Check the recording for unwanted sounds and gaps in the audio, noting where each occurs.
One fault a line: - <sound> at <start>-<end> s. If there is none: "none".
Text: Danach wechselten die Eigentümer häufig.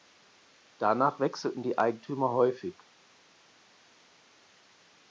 none